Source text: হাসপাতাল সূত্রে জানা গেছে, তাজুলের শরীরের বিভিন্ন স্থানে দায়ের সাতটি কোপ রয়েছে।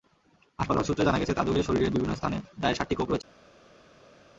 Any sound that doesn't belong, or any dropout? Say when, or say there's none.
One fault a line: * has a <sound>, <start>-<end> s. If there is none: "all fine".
all fine